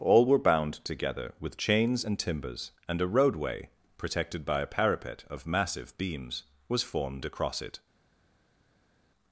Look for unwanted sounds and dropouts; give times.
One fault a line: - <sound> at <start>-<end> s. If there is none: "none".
none